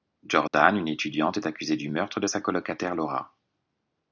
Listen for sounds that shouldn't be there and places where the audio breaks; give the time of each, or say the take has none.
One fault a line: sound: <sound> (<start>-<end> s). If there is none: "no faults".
sound: dropout (0.5-0.5 s)